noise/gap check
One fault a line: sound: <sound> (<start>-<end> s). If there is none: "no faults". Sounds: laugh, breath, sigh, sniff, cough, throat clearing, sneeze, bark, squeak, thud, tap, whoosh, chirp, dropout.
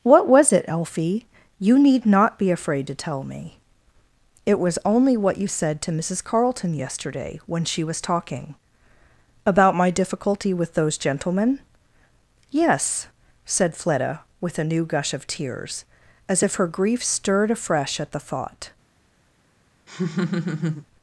sound: laugh (19.9-20.9 s)